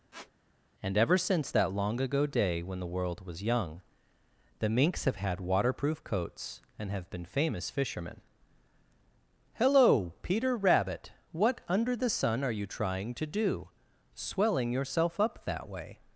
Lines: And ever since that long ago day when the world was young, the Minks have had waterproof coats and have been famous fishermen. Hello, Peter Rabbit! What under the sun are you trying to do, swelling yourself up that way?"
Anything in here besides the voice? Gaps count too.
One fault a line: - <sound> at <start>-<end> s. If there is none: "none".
- squeak at 0.1-0.3 s